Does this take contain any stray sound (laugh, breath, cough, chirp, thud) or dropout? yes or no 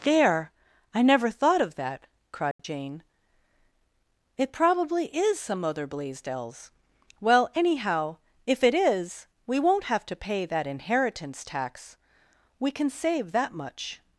yes